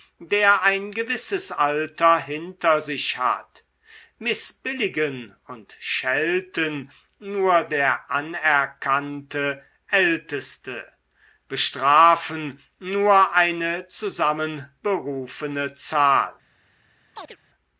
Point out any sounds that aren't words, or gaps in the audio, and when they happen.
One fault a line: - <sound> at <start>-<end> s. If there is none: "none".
- chirp at 17.1-17.4 s